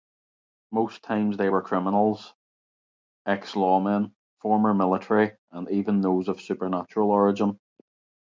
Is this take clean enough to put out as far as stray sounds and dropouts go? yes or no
yes